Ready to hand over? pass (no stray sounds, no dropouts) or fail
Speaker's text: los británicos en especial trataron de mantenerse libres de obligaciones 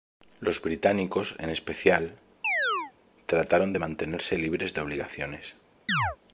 fail